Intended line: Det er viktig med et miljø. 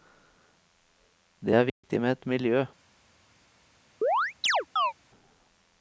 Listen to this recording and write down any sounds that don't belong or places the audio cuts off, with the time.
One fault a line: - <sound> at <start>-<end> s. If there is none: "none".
- dropout at 1.7-1.8 s
- chirp at 4.0-4.9 s